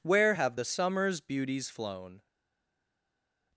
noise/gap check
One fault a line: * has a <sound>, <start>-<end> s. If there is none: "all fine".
all fine